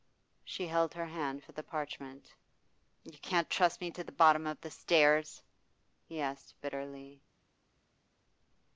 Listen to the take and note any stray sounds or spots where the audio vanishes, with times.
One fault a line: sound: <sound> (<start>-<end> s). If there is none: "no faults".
no faults